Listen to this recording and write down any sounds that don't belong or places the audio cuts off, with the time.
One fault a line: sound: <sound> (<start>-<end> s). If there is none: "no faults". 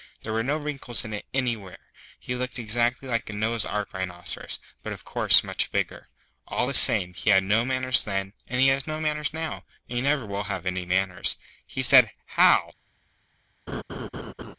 sound: laugh (13.7-14.6 s)